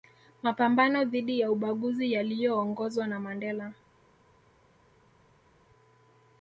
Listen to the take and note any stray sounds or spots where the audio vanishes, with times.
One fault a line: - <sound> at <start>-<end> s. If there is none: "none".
none